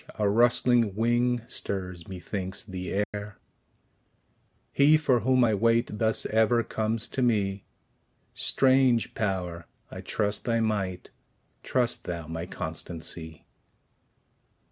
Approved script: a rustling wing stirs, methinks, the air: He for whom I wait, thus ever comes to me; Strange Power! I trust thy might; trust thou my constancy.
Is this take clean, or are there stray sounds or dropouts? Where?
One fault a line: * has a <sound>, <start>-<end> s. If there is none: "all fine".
* has a dropout, 3.0-3.1 s